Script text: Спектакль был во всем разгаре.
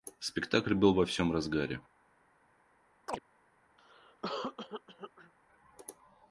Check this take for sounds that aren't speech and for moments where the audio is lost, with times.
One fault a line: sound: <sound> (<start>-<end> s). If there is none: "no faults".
sound: chirp (3.1-3.2 s)
sound: cough (3.8-5.3 s)